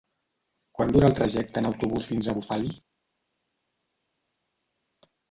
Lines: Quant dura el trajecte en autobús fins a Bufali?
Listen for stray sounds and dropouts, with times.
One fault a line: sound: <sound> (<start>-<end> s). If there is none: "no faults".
no faults